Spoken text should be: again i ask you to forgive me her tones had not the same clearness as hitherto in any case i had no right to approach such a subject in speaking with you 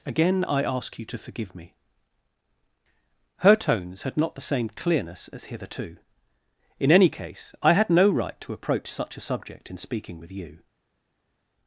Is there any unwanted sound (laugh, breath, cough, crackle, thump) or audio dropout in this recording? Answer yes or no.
no